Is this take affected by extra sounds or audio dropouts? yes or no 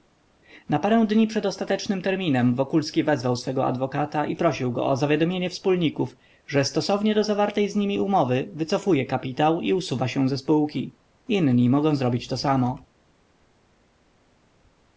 no